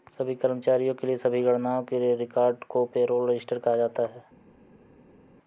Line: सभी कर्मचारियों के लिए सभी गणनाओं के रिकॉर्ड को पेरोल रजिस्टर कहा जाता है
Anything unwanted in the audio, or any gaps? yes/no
no